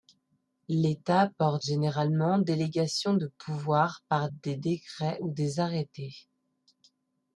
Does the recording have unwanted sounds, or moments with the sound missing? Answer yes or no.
no